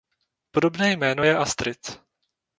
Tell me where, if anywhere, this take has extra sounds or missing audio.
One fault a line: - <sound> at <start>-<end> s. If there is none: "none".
none